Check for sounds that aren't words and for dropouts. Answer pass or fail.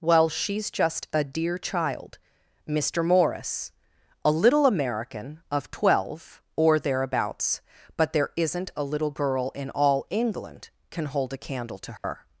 fail